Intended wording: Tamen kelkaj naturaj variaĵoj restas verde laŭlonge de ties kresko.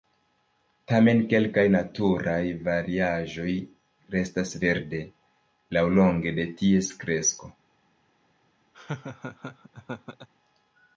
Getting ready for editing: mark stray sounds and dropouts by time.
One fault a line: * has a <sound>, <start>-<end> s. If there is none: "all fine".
* has a laugh, 8.7-10.3 s